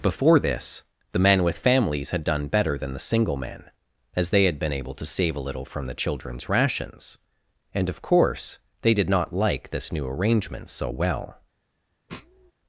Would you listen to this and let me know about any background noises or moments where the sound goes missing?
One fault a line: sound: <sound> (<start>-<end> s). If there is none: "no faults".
sound: sniff (12.1-12.5 s)